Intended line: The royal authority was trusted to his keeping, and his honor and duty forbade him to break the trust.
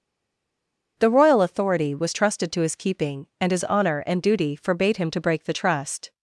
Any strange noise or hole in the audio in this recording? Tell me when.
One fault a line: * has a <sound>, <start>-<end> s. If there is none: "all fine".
all fine